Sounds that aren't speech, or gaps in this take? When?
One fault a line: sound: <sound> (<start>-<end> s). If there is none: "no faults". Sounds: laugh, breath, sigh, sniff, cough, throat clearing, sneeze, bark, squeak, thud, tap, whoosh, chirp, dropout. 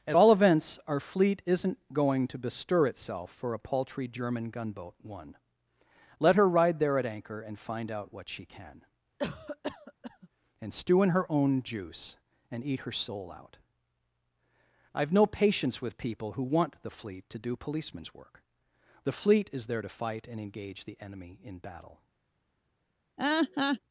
sound: cough (9.2-10.3 s)
sound: laugh (23.2-23.8 s)